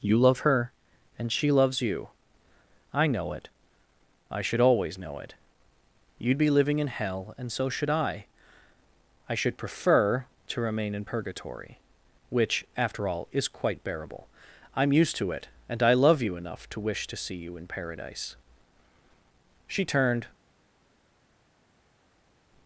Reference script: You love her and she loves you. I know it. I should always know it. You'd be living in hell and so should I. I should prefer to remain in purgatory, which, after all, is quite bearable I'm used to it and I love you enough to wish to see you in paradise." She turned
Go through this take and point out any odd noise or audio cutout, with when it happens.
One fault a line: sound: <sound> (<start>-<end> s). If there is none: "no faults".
no faults